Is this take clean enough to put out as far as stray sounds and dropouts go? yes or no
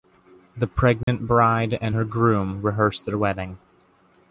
no